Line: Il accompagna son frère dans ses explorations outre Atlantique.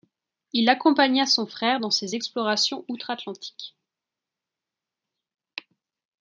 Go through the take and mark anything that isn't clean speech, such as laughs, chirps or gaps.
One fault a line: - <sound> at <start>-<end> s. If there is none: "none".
none